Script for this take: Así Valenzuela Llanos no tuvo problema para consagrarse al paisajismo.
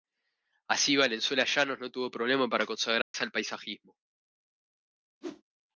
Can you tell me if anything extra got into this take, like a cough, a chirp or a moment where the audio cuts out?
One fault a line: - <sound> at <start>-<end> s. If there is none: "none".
- dropout at 3.0-3.1 s
- whoosh at 5.2-5.4 s